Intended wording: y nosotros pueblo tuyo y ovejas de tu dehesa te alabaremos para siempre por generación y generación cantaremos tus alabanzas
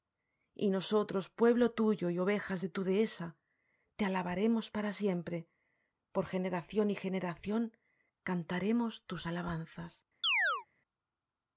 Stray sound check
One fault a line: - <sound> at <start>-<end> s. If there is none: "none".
- chirp at 10.2-10.7 s